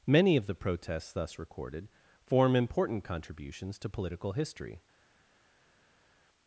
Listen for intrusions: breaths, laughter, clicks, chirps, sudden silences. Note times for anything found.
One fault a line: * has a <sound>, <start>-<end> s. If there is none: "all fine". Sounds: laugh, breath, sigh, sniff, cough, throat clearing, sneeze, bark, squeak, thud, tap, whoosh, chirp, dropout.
all fine